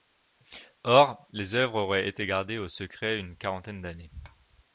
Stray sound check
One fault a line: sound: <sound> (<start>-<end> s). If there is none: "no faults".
no faults